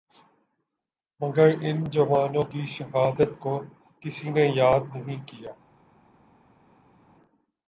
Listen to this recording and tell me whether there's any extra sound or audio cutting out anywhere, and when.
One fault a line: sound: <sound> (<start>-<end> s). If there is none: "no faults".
no faults